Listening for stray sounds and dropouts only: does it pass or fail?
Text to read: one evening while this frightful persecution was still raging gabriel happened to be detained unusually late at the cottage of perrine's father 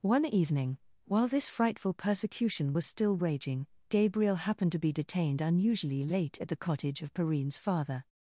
pass